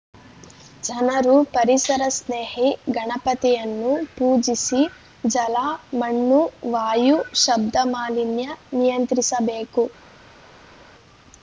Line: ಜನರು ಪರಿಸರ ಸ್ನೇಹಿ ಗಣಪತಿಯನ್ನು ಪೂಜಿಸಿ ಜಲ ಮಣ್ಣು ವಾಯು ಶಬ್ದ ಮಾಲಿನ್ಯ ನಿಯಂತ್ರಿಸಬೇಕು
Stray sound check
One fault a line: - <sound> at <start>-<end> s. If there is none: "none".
none